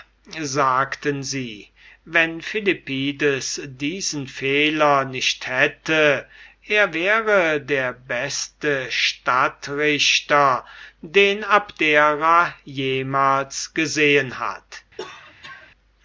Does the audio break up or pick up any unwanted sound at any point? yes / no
yes